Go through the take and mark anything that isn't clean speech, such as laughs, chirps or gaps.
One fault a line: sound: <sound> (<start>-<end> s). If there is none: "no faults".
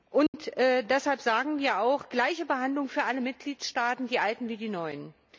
sound: dropout (0.3-0.3 s)